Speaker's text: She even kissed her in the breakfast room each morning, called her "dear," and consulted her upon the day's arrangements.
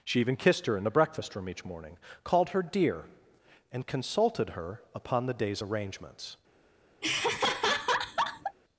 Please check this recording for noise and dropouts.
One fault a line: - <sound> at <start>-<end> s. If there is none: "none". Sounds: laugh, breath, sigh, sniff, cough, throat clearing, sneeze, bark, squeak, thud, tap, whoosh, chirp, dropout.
- laugh at 7.0-8.6 s